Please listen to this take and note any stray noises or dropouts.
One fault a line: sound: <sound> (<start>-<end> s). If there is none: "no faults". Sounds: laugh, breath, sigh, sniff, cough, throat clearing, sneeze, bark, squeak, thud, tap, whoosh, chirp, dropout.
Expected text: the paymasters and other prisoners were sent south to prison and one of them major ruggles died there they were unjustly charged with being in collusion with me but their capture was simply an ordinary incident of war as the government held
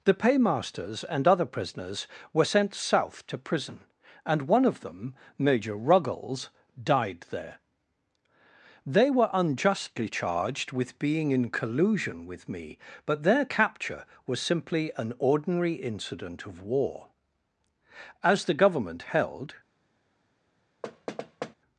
sound: thud (20.8-21.5 s)